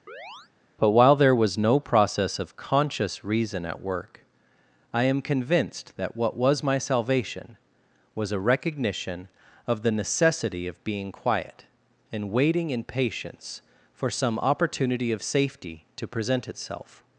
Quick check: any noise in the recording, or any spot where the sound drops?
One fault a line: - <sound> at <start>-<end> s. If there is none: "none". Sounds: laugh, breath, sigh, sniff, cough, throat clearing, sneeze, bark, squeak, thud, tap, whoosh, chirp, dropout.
- chirp at 0.1-0.5 s